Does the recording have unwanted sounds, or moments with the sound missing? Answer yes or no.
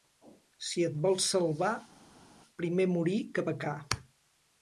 no